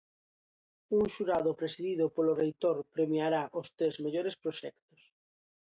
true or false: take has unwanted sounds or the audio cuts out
false